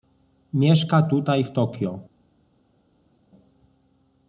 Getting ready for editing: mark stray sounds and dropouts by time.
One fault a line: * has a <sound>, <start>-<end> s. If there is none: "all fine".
all fine